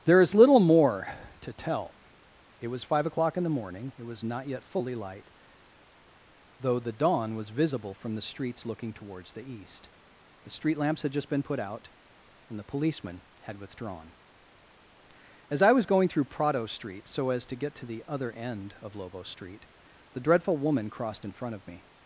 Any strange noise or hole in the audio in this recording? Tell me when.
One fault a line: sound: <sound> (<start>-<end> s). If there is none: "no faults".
no faults